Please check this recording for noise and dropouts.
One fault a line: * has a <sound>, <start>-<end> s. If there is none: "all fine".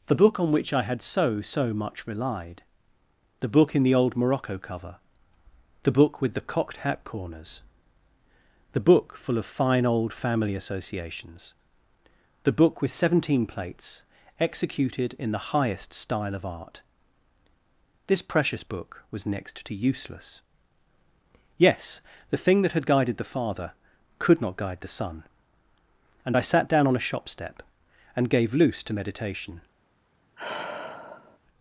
* has a sigh, 30.4-31.4 s